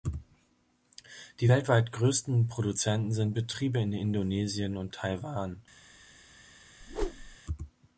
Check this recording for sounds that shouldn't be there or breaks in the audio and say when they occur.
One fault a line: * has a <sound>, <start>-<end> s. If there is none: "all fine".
* has a whoosh, 6.8-7.4 s